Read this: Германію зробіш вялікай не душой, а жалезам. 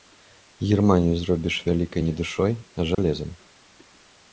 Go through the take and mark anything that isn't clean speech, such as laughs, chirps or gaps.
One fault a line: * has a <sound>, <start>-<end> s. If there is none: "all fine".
* has a dropout, 2.9-3.0 s